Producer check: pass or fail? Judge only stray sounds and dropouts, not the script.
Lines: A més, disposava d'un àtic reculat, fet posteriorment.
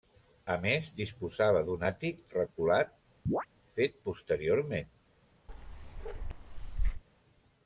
fail